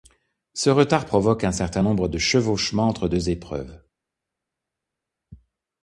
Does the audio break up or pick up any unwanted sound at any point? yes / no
no